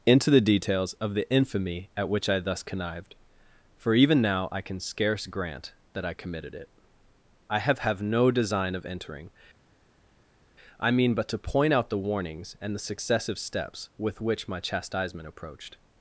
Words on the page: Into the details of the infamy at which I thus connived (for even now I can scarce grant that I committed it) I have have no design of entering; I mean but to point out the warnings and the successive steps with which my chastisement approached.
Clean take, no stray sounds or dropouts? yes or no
yes